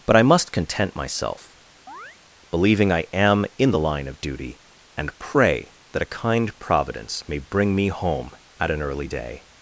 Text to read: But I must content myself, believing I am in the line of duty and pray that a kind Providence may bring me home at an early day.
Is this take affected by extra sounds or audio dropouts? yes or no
yes